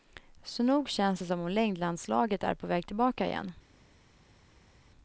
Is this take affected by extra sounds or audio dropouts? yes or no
no